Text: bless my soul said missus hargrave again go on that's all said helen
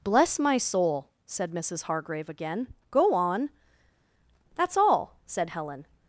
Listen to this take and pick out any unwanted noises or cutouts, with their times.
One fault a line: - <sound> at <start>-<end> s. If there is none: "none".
none